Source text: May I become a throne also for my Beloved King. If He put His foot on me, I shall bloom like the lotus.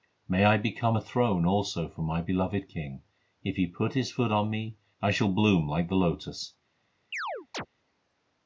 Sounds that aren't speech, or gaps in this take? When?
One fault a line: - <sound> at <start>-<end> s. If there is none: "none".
- chirp at 7.1-7.7 s